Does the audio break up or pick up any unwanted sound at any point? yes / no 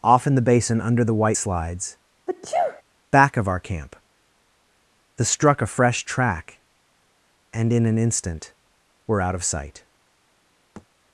yes